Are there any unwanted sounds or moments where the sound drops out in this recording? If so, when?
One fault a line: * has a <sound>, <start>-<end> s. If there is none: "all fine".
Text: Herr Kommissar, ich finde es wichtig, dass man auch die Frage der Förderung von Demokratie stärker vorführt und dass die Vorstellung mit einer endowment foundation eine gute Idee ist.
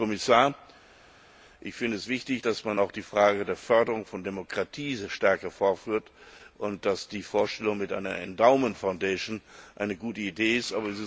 all fine